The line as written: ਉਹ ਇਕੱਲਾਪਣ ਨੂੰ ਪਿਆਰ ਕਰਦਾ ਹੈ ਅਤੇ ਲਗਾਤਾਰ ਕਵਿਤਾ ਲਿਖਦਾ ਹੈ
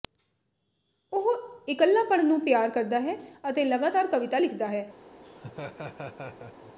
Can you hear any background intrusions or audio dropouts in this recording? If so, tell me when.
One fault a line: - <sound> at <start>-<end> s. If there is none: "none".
- laugh at 5.2-6.7 s